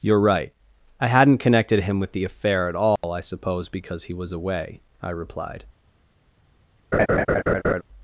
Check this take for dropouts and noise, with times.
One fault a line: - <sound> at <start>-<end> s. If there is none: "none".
- dropout at 3.0-3.0 s
- laugh at 6.9-7.8 s